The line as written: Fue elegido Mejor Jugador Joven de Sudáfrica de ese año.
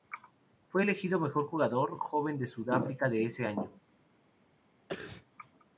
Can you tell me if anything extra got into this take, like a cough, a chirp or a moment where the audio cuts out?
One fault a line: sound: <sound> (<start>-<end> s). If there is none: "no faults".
sound: sneeze (4.9-5.3 s)